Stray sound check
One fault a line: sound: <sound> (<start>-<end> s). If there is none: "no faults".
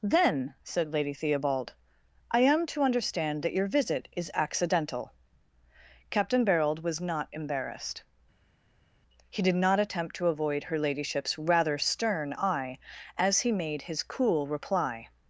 no faults